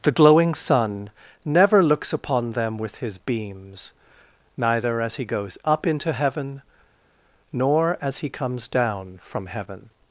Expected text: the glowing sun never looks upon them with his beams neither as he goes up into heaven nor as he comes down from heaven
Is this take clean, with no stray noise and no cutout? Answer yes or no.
yes